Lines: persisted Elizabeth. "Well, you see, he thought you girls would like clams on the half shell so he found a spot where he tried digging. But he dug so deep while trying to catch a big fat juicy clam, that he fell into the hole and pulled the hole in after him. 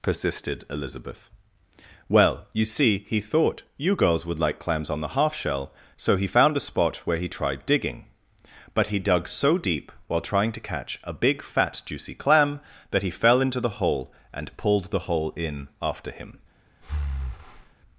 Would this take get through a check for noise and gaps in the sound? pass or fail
fail